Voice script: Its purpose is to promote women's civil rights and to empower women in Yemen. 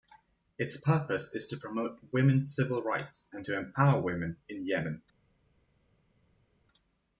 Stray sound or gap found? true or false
false